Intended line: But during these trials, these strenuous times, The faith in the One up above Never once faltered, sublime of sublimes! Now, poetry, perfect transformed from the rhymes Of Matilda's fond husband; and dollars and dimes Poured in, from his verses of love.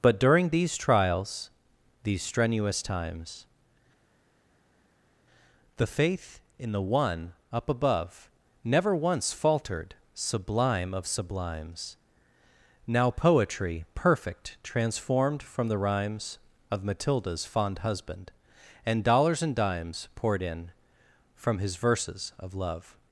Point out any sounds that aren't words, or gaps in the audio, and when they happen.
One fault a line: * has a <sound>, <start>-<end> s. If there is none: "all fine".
all fine